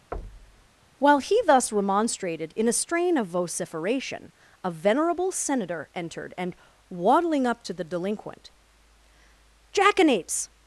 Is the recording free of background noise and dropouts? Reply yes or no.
no